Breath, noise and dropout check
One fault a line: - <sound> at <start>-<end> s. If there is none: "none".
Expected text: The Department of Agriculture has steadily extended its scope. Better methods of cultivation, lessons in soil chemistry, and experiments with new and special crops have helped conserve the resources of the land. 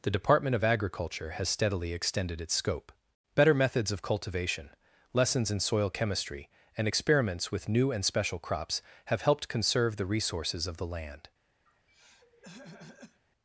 - throat clearing at 11.7-13.2 s